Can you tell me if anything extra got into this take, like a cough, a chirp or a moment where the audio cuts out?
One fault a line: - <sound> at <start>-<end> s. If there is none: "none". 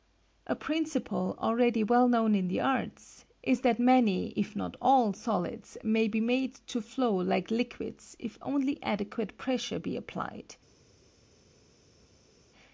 none